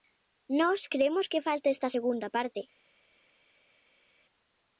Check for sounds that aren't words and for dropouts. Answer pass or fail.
pass